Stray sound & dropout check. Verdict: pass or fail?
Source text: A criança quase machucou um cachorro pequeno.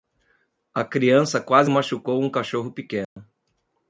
fail